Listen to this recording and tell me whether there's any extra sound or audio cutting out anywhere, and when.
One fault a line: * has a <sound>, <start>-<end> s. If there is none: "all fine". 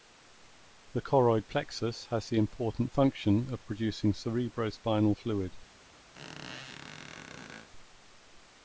* has a squeak, 6.1-7.7 s